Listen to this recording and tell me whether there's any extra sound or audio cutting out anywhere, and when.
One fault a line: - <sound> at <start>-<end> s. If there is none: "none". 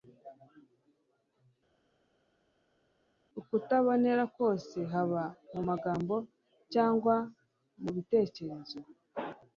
none